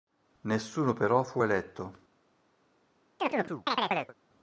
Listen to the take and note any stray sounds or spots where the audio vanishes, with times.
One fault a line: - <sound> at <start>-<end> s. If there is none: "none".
- chirp at 3.2-4.1 s